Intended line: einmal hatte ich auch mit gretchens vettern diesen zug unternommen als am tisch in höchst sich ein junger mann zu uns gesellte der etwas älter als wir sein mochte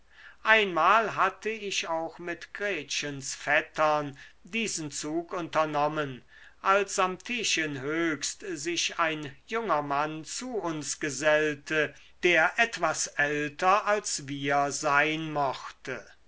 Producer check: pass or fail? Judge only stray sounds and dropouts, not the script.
pass